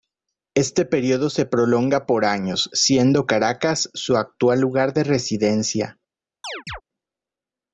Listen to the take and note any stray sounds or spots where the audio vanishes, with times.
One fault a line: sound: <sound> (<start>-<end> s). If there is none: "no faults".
sound: chirp (6.4-6.8 s)